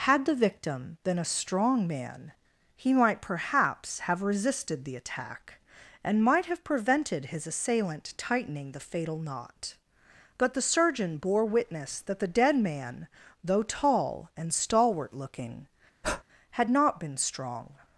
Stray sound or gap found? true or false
true